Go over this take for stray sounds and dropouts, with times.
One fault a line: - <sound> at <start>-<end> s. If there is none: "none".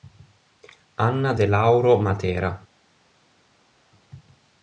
none